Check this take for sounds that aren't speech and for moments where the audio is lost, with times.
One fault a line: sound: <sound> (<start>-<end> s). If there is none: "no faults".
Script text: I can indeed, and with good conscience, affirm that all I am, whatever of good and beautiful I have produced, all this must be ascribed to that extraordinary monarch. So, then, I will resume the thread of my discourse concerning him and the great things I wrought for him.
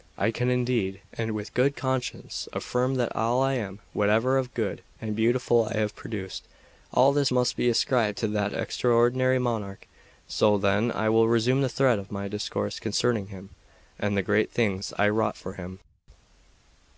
no faults